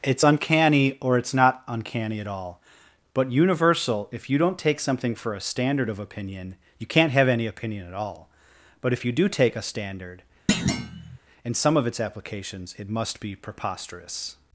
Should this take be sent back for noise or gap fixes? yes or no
yes